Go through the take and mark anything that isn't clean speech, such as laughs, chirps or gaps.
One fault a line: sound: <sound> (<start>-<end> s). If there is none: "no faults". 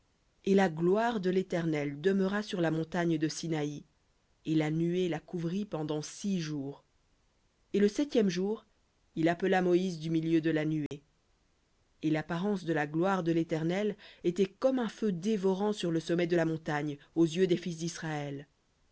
sound: dropout (10.9-10.9 s)